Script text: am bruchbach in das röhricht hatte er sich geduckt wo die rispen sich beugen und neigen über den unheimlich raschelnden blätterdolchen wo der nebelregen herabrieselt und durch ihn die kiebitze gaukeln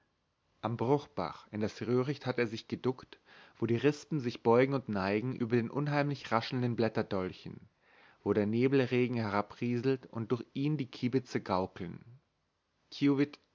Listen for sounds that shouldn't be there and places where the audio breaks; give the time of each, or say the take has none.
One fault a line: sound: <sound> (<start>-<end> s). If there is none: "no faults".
no faults